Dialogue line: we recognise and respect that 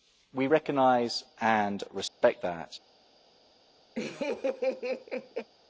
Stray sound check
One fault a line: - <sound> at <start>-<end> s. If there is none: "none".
- dropout at 2.1-2.2 s
- laugh at 4.0-5.5 s